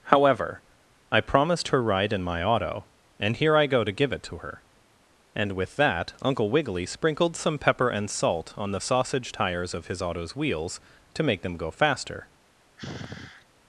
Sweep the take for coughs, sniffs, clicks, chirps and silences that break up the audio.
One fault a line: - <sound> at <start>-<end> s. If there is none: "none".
- sigh at 12.8-13.5 s